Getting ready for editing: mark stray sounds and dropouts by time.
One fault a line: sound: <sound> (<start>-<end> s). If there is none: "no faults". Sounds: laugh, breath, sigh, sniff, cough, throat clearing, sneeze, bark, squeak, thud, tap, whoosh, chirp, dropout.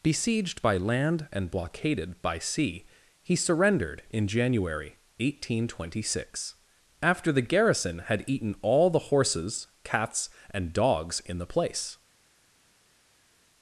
no faults